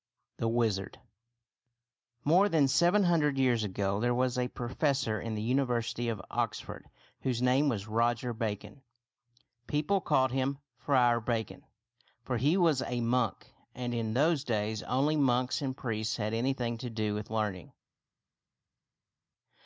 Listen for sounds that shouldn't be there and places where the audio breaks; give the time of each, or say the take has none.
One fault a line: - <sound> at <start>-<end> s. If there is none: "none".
none